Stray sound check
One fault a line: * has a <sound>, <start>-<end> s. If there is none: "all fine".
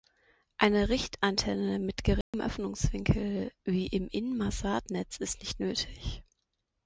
* has a dropout, 2.2-2.3 s